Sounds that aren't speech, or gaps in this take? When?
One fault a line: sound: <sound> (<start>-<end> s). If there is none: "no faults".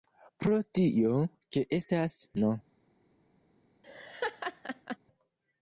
sound: laugh (3.8-5.0 s)